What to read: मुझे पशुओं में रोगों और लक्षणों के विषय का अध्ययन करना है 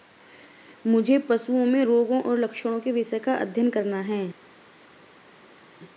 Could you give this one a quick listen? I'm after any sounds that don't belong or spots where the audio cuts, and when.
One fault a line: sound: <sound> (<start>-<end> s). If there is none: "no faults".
no faults